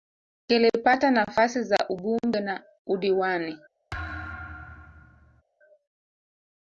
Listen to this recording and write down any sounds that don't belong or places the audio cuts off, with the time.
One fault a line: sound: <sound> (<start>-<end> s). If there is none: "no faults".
sound: thud (3.9-5.4 s)